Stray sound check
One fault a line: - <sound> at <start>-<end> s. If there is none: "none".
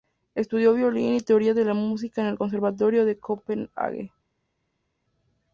none